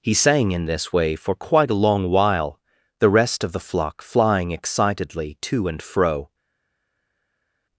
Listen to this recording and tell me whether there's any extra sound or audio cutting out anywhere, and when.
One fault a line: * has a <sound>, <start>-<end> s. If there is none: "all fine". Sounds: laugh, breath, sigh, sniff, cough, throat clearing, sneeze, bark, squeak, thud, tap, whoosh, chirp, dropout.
all fine